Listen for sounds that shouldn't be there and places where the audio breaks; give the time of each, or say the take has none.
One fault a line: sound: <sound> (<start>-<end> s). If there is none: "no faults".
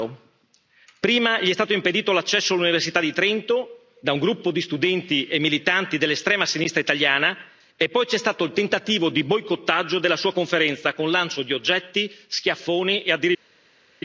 no faults